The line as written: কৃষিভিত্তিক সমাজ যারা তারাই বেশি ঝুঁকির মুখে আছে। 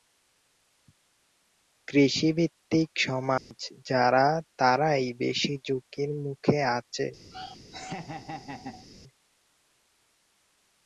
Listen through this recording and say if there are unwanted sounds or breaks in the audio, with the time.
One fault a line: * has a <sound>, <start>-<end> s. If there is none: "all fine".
* has a dropout, 3.4-3.5 s
* has a laugh, 7.3-8.9 s